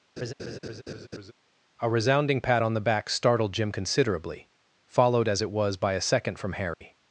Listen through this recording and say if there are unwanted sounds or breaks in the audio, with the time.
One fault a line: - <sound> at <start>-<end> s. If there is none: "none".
- laugh at 0.2-1.3 s
- dropout at 6.7-6.8 s